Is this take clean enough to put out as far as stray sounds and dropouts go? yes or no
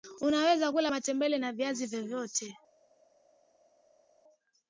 yes